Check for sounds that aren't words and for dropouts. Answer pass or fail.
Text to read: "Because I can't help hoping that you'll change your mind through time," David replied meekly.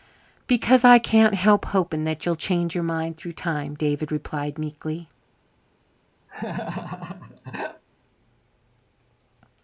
fail